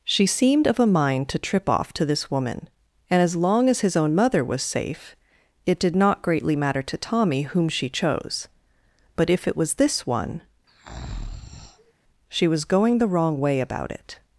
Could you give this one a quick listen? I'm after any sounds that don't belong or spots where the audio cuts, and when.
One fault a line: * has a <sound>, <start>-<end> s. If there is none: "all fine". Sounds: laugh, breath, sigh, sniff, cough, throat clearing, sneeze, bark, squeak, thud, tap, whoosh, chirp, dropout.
* has a breath, 10.7-11.9 s